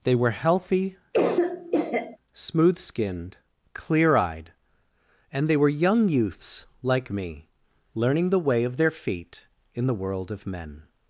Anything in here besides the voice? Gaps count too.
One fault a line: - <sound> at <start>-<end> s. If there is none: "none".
- cough at 1.1-2.2 s